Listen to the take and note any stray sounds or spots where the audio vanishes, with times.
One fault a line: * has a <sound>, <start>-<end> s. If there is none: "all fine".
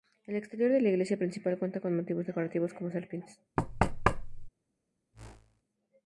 * has a thud, 3.6-4.5 s
* has a whoosh, 5.1-5.6 s